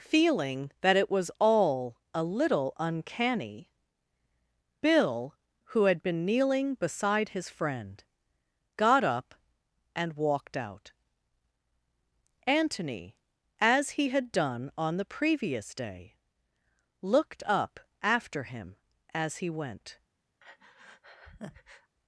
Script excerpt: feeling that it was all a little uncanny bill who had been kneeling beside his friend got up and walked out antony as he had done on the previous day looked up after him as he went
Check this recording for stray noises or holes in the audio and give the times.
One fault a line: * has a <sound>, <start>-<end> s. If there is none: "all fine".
* has a breath, 20.4-21.9 s